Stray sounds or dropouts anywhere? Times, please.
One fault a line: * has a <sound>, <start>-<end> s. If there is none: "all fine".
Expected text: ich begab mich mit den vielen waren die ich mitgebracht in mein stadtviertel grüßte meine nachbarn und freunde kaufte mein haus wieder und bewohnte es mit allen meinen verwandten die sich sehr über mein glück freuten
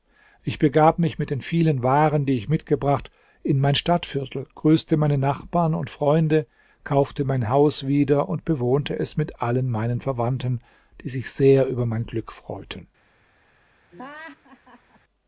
* has a laugh, 13.9-15.0 s